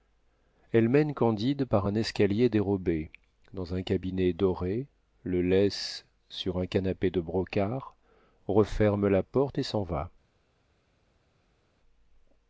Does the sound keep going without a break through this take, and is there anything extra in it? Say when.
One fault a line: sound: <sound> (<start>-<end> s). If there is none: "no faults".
no faults